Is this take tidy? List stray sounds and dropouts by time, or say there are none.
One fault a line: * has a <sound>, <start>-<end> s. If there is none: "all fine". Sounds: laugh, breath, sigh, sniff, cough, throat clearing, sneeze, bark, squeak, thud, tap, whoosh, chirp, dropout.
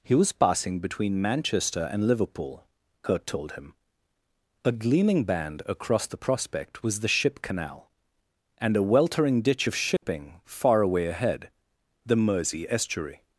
* has a dropout, 10.0-10.0 s